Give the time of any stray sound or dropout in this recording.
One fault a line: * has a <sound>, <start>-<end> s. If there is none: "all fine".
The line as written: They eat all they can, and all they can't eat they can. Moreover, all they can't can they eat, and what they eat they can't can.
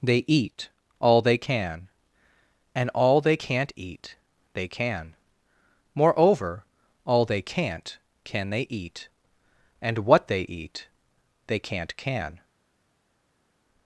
all fine